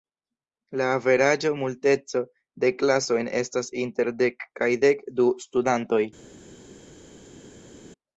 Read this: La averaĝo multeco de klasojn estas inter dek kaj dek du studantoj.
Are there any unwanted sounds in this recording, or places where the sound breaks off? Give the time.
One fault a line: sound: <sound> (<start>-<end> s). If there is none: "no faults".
no faults